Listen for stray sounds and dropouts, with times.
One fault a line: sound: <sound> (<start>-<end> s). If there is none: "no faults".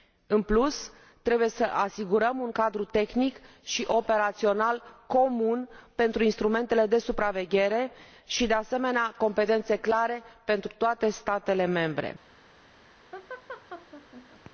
sound: laugh (13.1-14.5 s)